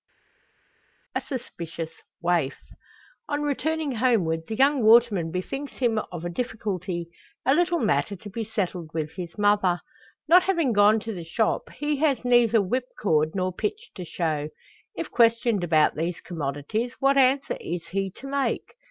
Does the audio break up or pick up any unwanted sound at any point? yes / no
no